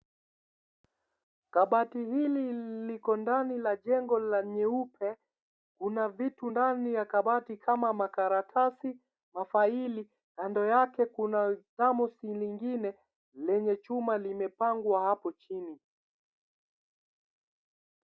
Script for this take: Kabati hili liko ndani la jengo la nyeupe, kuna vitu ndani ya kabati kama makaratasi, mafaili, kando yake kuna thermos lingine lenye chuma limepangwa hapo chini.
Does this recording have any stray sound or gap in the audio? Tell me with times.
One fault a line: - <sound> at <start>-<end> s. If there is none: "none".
none